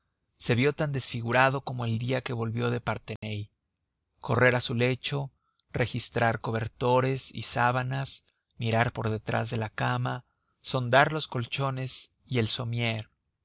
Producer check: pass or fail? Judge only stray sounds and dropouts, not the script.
fail